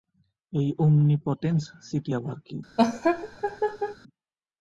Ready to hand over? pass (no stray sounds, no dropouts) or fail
fail